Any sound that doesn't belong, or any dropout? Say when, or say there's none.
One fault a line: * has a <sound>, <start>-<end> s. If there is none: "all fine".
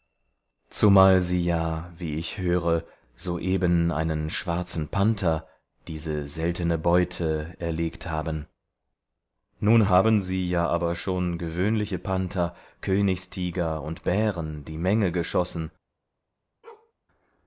* has a bark, 16.6-16.9 s